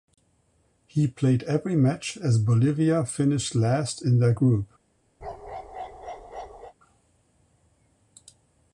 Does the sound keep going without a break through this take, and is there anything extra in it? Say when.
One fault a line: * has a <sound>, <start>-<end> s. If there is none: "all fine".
* has a bark, 5.2-6.7 s